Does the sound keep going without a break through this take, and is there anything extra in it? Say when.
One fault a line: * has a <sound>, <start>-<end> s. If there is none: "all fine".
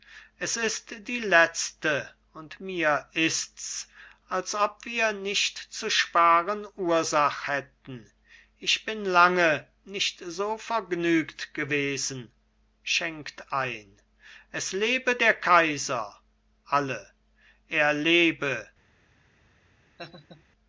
* has a laugh, 20.0-20.4 s